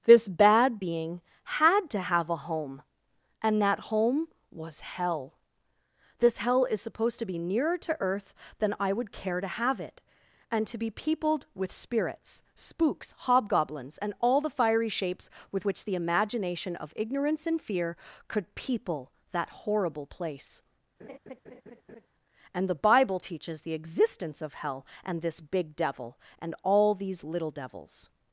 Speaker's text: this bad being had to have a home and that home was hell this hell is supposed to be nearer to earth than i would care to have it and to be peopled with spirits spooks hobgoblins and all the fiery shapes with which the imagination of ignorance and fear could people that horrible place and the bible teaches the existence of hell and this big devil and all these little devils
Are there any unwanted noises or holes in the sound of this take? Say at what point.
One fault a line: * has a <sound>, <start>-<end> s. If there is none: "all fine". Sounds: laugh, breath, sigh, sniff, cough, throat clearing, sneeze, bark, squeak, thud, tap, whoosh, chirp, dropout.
* has a laugh, 21.0-22.1 s